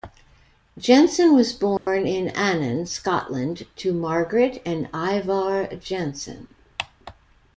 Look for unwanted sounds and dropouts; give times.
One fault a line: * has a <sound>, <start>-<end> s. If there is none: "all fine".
* has a dropout, 1.8-1.9 s